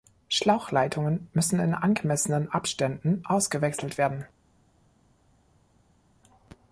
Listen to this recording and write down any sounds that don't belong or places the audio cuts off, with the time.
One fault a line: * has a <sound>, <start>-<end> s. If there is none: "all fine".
all fine